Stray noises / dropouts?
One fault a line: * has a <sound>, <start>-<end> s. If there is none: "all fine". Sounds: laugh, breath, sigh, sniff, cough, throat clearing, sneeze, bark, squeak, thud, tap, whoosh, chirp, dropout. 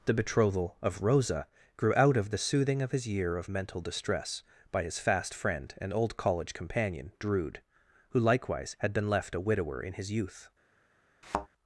* has a thud, 11.2-11.5 s